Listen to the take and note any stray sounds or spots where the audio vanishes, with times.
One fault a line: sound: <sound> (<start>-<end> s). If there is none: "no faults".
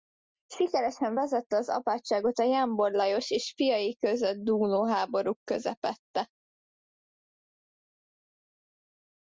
no faults